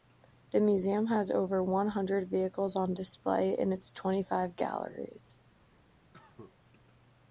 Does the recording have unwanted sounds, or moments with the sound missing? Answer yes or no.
yes